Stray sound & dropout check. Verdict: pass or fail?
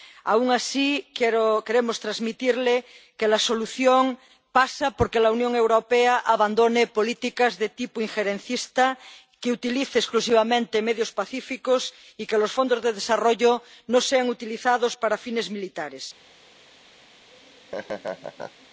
fail